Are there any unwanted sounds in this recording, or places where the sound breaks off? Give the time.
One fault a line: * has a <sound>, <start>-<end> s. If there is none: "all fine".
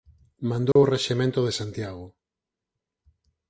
* has a dropout, 0.7-0.8 s